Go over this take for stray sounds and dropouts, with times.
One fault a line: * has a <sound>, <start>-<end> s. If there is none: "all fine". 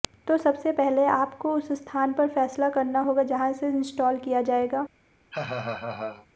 * has a laugh, 5.3-6.3 s